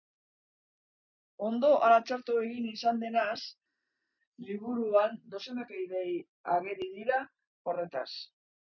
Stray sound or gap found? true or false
false